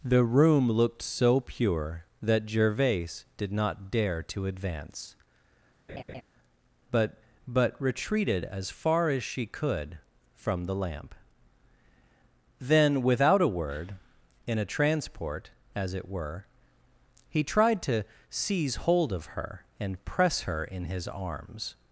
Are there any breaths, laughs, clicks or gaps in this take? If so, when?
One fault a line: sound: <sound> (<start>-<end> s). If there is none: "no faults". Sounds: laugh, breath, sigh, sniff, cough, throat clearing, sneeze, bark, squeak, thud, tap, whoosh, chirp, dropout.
sound: laugh (5.9-6.2 s)